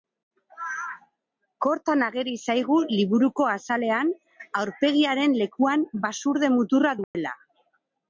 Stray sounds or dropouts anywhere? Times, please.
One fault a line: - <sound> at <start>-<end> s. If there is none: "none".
- dropout at 7.0-7.1 s